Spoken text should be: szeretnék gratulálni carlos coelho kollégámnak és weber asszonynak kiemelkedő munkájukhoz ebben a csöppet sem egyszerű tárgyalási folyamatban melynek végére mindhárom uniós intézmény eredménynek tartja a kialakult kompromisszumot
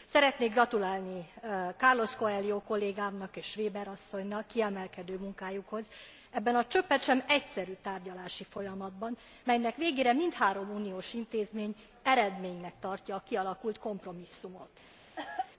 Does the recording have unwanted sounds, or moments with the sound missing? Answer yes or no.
yes